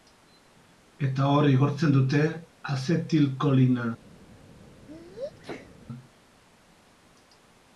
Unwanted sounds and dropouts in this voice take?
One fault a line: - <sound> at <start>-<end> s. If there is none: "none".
- sneeze at 4.9-5.8 s